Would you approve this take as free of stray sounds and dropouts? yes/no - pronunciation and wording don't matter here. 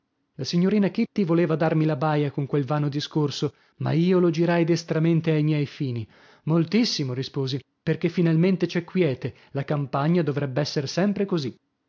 yes